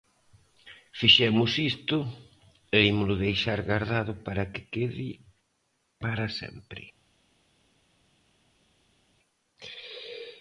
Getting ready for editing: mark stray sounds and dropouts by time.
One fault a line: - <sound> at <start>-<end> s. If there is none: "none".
none